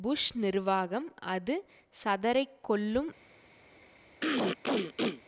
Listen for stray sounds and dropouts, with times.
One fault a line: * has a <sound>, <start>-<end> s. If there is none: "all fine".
* has a throat clearing, 4.2-5.2 s